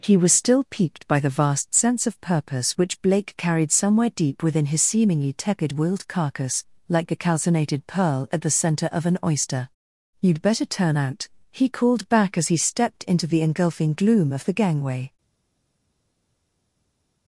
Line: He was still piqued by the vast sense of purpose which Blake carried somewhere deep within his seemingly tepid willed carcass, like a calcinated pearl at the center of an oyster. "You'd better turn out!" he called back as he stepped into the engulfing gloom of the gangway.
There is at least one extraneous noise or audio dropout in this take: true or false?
false